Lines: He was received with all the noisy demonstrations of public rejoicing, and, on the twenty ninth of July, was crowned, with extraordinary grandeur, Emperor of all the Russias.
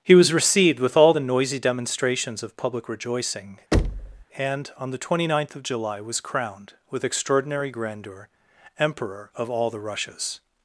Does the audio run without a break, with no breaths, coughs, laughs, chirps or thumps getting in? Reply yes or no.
no